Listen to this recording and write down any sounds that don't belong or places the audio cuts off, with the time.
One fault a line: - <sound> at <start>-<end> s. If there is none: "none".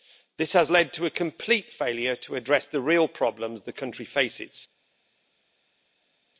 none